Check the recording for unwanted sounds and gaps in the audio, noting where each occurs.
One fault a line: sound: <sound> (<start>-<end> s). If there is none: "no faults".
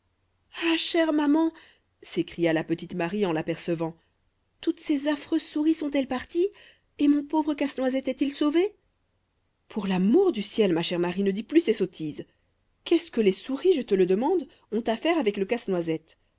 no faults